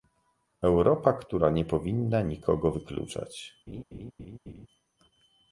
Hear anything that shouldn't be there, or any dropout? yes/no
yes